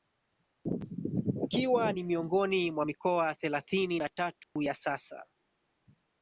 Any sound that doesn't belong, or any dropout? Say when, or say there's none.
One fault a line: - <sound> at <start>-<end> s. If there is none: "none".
- dropout at 4.4-4.6 s